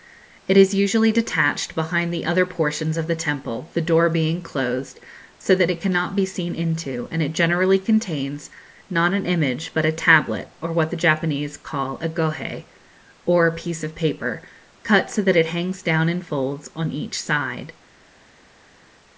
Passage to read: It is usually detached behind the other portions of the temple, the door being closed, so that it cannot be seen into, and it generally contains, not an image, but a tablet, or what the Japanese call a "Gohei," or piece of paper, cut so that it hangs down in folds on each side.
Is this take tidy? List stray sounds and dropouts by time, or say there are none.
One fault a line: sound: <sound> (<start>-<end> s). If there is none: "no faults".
no faults